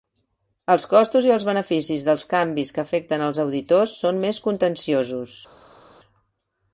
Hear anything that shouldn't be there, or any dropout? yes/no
no